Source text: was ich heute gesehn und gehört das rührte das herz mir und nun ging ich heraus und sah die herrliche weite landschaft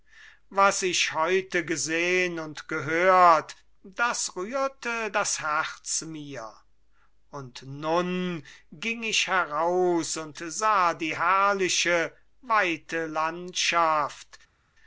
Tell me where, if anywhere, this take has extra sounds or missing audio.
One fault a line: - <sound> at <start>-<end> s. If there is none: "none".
none